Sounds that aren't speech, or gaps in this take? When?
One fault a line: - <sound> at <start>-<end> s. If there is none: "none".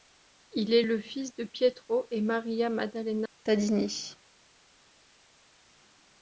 none